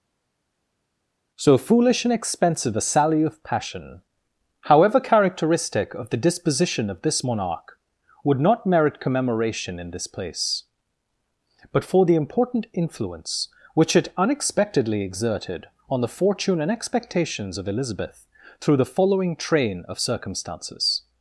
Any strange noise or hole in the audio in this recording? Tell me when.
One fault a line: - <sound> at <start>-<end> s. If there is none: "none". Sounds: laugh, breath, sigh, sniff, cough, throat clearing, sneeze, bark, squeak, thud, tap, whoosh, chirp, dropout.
none